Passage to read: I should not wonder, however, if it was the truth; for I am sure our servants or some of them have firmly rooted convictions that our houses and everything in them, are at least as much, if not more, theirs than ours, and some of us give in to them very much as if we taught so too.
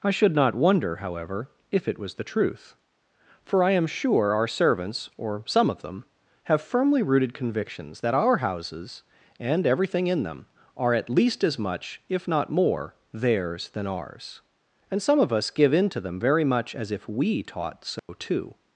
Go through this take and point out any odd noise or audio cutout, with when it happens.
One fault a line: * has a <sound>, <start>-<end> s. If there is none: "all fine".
* has a dropout, 18.0-18.1 s